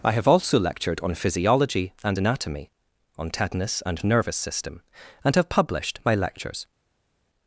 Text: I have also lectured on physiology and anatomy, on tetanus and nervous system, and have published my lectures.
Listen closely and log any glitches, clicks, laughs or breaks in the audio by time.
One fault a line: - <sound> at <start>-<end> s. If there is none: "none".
none